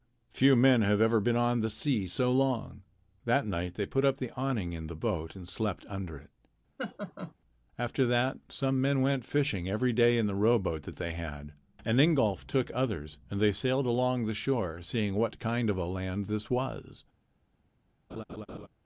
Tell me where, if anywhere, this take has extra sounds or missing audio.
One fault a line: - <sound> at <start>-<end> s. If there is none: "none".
- laugh at 6.8-7.3 s
- laugh at 18.1-18.7 s